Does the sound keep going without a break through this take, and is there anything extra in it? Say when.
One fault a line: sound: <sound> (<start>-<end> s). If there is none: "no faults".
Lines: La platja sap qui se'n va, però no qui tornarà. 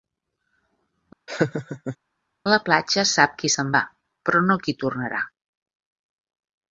sound: laugh (1.3-2.0 s)